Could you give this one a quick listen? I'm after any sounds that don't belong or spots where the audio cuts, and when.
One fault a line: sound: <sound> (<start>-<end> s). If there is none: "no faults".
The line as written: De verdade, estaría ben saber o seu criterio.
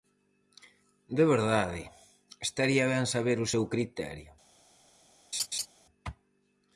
sound: laugh (5.3-5.7 s)